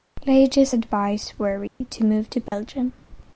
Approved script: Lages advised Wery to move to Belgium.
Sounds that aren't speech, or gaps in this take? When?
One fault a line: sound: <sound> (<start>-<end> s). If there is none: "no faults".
sound: dropout (1.7-1.8 s)
sound: dropout (2.5-2.5 s)